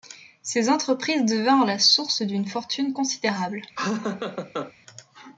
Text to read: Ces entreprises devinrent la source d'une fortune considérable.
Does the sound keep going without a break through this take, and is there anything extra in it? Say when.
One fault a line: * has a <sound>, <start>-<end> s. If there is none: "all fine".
* has a laugh, 3.8-4.7 s